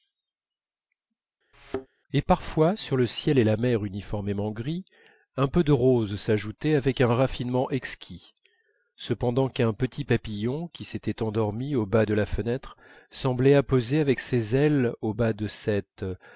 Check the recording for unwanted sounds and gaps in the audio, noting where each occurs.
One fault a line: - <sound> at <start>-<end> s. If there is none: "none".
- thud at 1.5-1.9 s